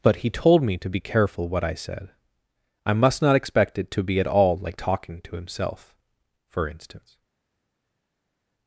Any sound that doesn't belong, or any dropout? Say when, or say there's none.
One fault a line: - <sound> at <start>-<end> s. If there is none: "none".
none